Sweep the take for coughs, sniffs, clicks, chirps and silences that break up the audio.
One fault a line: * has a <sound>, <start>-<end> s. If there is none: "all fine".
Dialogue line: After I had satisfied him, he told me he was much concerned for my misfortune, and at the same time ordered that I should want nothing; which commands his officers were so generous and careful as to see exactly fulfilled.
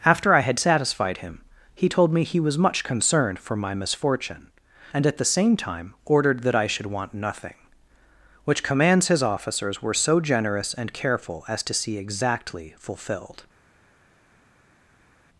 all fine